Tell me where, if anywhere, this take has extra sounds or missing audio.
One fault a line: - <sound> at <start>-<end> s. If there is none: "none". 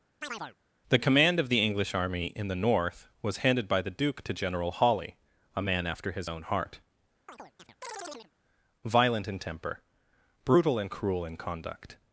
- chirp at 0.2-0.6 s
- chirp at 7.3-8.3 s